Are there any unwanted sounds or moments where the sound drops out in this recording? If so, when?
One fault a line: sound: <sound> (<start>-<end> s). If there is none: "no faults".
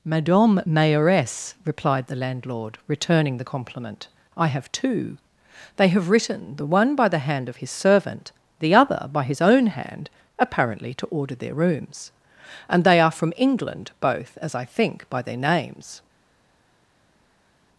no faults